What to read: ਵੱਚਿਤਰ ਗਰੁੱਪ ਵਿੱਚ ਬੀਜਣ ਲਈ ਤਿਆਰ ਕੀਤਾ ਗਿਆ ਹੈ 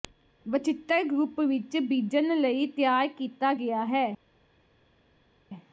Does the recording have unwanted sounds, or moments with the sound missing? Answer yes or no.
no